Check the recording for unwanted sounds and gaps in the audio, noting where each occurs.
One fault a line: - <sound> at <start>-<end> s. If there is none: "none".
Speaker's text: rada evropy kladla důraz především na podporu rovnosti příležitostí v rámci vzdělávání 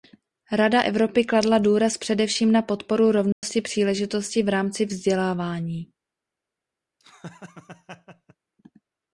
- dropout at 3.3-3.4 s
- laugh at 7.0-8.4 s